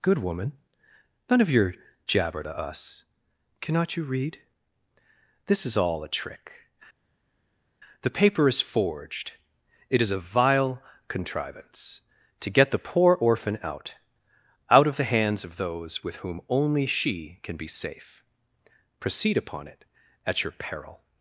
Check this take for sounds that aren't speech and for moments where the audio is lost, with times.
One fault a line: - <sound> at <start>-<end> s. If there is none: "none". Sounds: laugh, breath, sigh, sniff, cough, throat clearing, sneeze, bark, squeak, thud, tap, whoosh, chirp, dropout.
none